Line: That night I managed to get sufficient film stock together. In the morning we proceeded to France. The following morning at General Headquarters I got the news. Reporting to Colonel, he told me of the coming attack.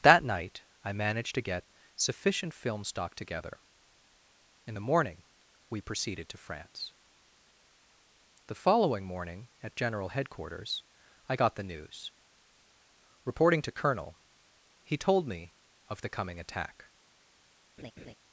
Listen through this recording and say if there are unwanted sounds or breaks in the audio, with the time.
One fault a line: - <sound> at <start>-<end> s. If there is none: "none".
- laugh at 17.8-18.1 s